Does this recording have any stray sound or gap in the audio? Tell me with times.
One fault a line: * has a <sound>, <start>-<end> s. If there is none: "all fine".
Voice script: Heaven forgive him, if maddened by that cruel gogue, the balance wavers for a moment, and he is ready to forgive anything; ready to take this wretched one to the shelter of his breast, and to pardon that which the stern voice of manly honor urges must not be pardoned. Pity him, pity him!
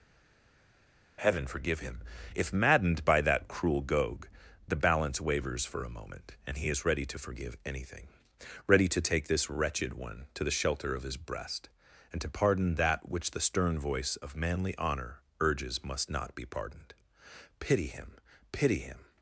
all fine